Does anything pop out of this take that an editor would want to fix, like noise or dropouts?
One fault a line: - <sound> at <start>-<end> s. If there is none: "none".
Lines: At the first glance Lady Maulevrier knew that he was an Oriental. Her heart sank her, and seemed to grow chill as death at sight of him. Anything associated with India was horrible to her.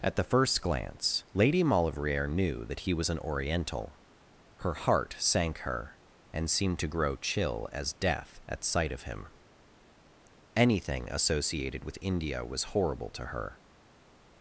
none